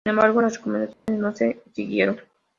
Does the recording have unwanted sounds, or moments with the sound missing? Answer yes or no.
yes